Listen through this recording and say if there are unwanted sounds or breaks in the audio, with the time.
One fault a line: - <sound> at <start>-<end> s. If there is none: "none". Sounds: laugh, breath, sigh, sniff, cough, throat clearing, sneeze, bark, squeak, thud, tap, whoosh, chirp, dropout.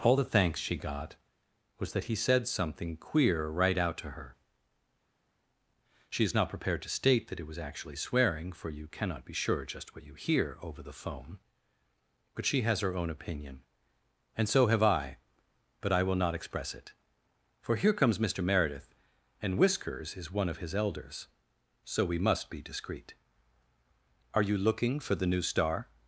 none